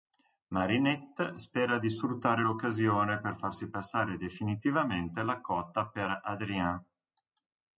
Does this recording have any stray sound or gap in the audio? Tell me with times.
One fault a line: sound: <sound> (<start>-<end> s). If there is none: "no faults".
no faults